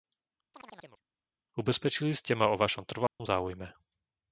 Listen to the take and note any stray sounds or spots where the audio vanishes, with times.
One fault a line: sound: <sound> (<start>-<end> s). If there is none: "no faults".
sound: chirp (0.5-1.0 s)
sound: dropout (3.1-3.2 s)